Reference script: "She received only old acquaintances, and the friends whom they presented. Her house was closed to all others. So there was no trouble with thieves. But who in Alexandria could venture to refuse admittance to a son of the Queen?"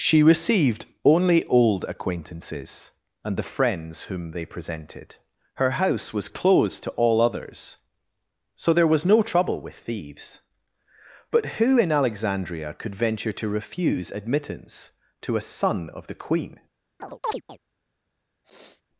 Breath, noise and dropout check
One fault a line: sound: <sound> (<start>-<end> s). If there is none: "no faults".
sound: chirp (17.0-17.6 s)
sound: sniff (18.4-18.8 s)